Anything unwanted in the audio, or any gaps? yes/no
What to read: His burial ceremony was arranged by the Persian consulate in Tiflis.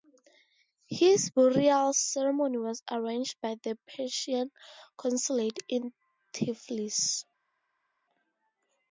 no